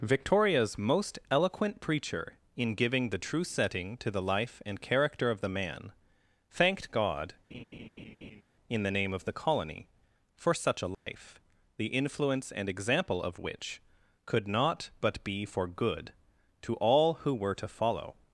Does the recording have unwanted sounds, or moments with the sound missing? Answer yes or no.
yes